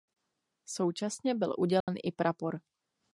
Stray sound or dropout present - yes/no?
yes